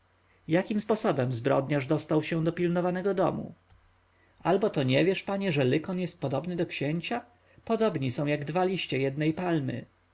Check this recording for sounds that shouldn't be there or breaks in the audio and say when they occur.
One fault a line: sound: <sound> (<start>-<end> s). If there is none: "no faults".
no faults